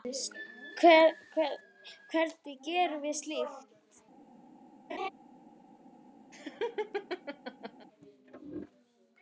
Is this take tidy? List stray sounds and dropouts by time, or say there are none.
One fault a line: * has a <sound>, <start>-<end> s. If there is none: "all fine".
* has a laugh, 4.9-5.1 s
* has a laugh, 6.3-7.9 s